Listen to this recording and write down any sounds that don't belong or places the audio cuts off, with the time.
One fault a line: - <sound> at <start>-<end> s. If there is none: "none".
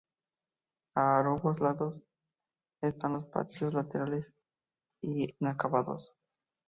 none